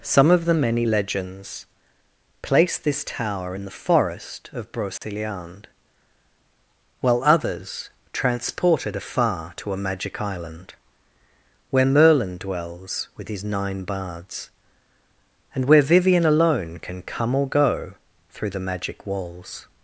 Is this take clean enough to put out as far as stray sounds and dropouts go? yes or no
no